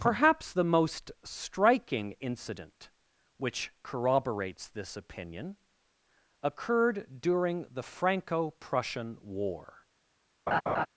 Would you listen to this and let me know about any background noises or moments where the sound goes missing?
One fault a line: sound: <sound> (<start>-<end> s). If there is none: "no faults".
sound: laugh (10.5-10.9 s)